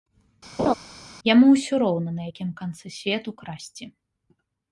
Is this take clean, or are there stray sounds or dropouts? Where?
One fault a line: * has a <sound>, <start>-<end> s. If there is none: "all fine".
* has a laugh, 0.6-0.7 s